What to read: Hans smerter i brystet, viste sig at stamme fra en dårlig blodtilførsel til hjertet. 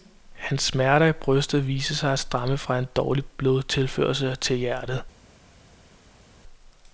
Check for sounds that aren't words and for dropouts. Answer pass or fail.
pass